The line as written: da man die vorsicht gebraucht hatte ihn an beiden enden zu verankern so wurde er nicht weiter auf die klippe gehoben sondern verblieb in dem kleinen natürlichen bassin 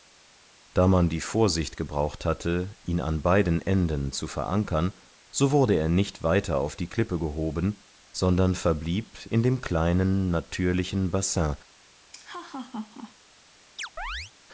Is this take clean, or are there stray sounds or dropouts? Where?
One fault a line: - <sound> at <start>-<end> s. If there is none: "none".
- laugh at 12.1-13.1 s
- chirp at 13.8-14.3 s